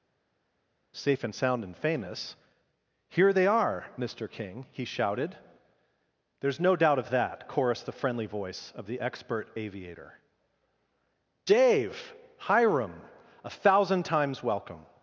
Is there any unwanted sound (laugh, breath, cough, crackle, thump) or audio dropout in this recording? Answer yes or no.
no